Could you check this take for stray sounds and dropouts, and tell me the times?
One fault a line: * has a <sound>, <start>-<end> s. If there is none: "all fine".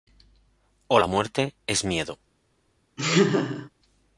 * has a laugh, 3.0-3.7 s